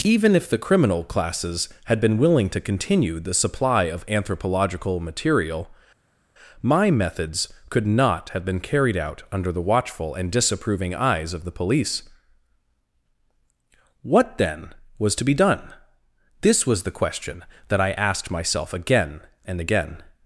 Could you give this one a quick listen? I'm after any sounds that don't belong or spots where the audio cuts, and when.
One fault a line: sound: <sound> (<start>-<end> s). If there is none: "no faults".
no faults